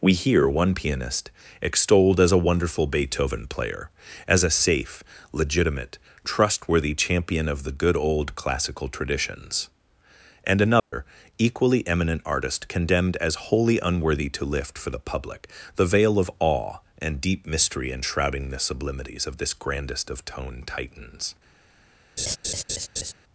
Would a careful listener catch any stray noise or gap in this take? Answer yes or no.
yes